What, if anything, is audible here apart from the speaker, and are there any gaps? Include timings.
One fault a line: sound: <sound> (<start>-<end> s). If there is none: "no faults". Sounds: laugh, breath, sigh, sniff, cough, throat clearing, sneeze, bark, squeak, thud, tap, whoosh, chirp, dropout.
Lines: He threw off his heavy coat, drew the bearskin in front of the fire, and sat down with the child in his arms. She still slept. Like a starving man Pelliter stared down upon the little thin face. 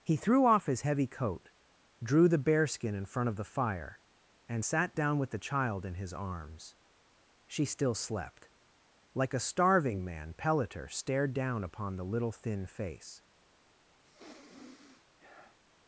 sound: sniff (14.0-15.6 s)